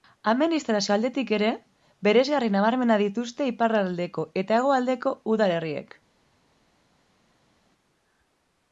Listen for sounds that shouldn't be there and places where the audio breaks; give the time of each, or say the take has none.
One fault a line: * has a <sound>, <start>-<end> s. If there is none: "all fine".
all fine